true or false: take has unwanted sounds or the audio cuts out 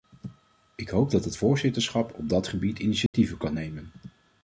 true